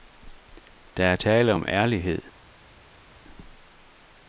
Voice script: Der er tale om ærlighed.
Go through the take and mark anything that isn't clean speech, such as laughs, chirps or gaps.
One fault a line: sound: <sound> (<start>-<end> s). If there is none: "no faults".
no faults